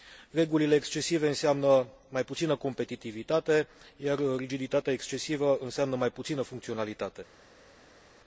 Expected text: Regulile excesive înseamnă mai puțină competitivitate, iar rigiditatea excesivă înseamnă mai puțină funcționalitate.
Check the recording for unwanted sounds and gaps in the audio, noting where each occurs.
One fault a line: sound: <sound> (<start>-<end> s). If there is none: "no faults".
no faults